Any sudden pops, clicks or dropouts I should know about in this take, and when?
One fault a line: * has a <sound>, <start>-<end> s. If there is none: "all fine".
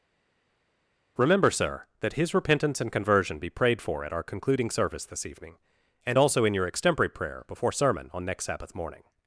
all fine